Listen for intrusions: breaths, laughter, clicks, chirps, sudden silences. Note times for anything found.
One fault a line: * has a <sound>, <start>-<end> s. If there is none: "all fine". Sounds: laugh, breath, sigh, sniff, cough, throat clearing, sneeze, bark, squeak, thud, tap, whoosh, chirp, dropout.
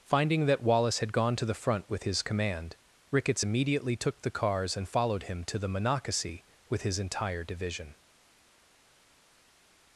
all fine